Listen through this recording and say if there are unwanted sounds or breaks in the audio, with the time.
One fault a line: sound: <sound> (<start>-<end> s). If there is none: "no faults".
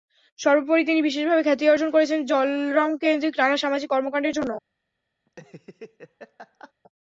sound: laugh (5.3-6.7 s)